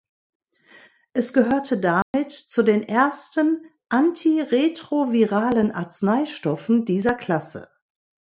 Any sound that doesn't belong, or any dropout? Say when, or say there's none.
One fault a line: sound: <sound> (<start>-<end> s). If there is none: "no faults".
sound: dropout (2.0-2.1 s)